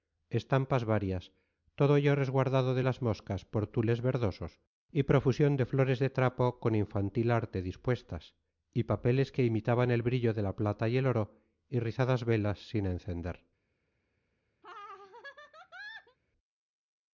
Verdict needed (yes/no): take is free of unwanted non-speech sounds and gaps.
no